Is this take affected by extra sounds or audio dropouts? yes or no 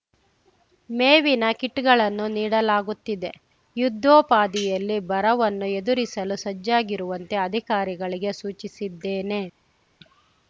no